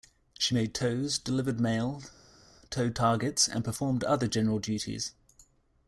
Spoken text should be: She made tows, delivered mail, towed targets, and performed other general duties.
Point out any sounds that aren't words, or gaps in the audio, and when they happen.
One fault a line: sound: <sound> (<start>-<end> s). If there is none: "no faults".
no faults